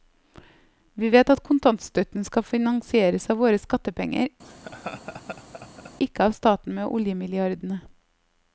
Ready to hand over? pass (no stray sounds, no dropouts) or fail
fail